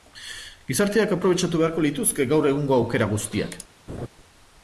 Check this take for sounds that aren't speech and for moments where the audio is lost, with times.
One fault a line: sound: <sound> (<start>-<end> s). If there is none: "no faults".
sound: laugh (3.9-4.1 s)